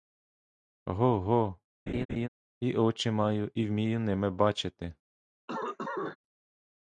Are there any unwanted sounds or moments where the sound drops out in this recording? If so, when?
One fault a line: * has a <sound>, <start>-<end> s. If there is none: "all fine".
* has a laugh, 1.9-2.3 s
* has a cough, 5.5-6.2 s